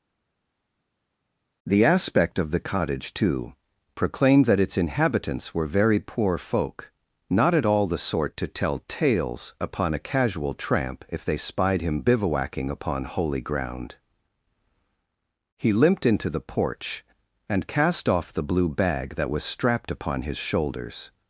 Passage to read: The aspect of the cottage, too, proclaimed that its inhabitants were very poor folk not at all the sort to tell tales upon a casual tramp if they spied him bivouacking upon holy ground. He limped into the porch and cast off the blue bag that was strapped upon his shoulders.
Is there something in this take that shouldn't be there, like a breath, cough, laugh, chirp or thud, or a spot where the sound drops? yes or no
no